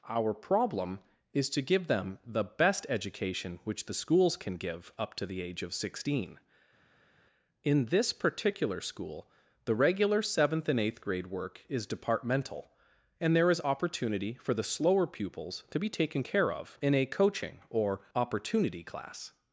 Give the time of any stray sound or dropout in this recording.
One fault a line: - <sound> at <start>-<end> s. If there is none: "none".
none